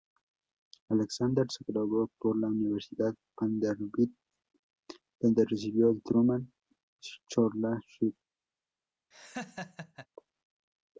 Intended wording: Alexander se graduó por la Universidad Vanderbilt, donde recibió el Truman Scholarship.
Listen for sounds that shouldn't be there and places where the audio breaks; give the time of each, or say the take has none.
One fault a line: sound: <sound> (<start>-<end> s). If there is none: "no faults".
sound: laugh (9.1-10.1 s)